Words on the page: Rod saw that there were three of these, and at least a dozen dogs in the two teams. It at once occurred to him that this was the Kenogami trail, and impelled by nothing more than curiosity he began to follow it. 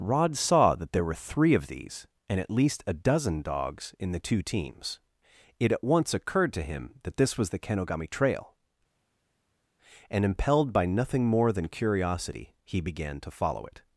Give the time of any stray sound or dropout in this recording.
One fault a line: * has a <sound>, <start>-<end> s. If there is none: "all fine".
all fine